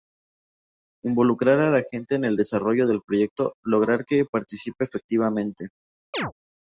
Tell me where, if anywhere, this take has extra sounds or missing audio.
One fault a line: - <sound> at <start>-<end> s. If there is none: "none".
- chirp at 6.1-6.3 s